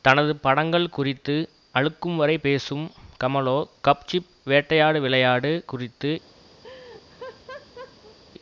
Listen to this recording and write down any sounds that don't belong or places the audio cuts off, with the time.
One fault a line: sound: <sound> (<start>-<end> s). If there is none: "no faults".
sound: laugh (6.6-8.2 s)